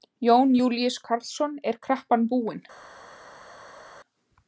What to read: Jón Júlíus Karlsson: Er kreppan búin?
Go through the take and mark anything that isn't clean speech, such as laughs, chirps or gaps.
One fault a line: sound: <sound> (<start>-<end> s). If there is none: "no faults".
no faults